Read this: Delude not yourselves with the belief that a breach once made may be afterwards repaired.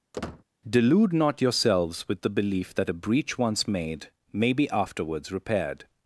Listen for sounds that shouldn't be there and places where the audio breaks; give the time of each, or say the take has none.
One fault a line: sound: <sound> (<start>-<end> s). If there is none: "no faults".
sound: squeak (0.1-0.4 s)